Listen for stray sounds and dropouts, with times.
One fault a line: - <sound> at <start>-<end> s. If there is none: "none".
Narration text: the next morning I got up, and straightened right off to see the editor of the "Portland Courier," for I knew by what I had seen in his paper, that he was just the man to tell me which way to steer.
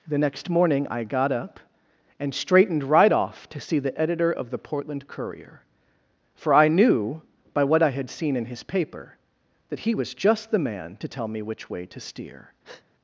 - breath at 12.6-12.9 s